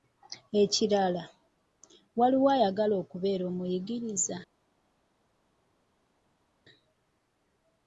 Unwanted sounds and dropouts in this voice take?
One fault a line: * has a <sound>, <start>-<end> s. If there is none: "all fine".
all fine